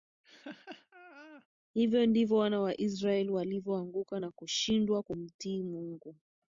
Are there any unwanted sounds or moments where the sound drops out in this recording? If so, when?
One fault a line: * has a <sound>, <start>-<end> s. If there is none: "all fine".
* has a laugh, 0.2-1.5 s